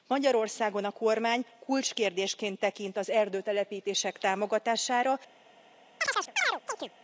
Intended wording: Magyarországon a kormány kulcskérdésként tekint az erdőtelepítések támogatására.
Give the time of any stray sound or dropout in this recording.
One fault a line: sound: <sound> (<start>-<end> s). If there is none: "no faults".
sound: chirp (6.0-6.9 s)